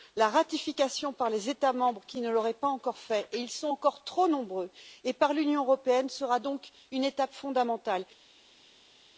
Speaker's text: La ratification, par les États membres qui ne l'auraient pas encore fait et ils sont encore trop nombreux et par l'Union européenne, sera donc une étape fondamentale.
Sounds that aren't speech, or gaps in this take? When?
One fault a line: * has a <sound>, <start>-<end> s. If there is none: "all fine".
all fine